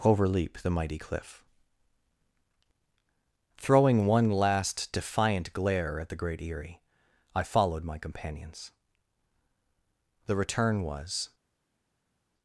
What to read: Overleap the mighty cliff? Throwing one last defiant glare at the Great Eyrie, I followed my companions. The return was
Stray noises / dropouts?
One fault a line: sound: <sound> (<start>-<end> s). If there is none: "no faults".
no faults